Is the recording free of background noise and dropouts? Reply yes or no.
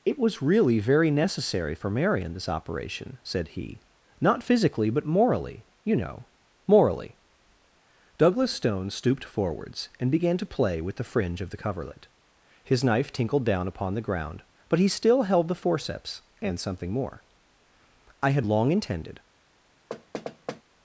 no